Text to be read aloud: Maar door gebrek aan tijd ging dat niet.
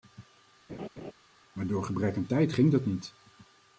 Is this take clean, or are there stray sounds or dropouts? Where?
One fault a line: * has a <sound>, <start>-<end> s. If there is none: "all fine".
* has a laugh, 0.7-1.1 s